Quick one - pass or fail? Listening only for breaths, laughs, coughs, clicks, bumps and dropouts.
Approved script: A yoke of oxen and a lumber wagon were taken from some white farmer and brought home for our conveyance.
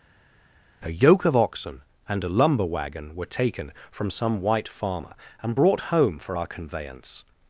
pass